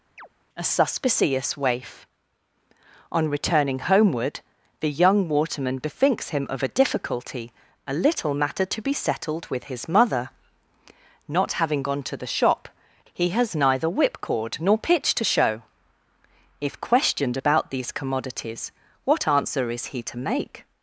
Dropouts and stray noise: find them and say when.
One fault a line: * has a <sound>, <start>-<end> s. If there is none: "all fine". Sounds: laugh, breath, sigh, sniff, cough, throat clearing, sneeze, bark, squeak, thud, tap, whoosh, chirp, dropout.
* has a chirp, 0.2-0.3 s